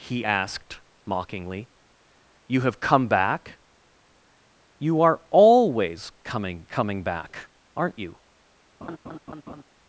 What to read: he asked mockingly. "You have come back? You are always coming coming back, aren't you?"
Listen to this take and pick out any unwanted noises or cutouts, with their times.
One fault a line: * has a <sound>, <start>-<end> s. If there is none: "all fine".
* has a laugh, 8.8-9.6 s